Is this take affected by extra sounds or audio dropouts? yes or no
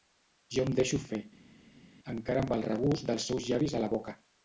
no